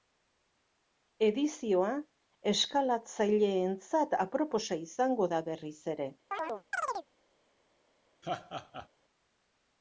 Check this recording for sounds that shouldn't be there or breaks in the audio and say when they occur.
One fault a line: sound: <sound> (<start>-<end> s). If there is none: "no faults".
sound: chirp (6.3-7.1 s)
sound: laugh (8.2-8.9 s)